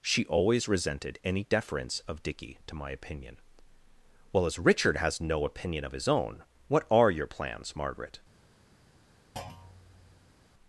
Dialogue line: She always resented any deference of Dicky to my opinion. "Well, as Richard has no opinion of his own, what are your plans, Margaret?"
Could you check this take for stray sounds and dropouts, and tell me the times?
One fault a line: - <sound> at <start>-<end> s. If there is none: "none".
- thud at 9.4-10.5 s